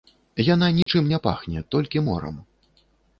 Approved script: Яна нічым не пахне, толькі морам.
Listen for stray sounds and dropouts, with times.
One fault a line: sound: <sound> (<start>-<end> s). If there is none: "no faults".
sound: dropout (0.8-0.9 s)